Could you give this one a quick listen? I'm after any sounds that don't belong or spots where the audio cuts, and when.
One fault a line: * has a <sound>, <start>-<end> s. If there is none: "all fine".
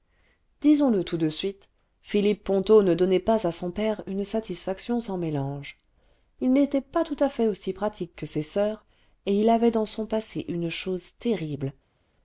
all fine